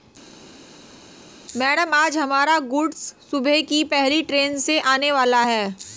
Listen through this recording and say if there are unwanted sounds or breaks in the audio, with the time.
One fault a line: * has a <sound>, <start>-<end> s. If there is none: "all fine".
all fine